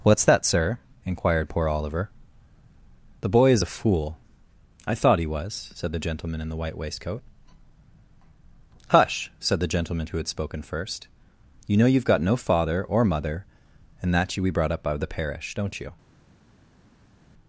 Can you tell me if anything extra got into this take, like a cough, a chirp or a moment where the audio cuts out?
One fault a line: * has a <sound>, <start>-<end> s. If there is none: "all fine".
all fine